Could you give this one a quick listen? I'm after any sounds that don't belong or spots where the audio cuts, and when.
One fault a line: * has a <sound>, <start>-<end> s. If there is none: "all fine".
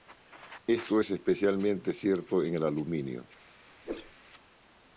* has a whoosh, 3.8-4.2 s